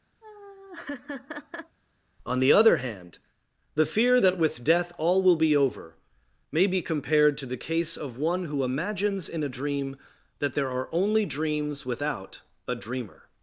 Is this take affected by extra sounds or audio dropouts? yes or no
yes